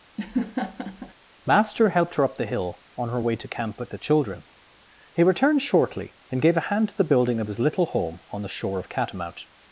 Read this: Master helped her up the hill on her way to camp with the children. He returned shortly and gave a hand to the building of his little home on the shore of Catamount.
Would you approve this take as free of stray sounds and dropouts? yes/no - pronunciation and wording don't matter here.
no